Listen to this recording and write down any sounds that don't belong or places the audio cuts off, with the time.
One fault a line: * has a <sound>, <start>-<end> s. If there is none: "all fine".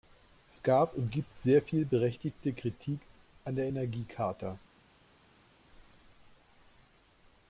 all fine